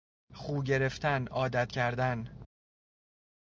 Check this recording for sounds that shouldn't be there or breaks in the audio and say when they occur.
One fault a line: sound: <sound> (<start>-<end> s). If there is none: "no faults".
no faults